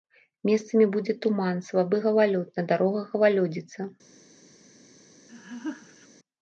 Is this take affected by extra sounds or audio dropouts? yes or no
yes